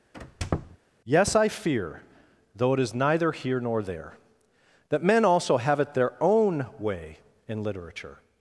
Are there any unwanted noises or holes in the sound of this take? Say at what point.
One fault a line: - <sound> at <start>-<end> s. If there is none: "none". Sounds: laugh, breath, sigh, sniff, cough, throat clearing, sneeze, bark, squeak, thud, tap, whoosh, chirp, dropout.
- squeak at 0.1-0.8 s